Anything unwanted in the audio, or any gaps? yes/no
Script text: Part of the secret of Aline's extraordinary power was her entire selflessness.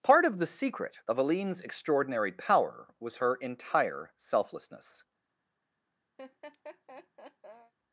yes